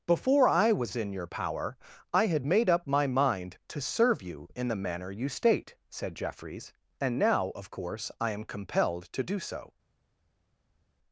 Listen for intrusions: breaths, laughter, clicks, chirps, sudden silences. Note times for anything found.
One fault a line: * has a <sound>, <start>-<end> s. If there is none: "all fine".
all fine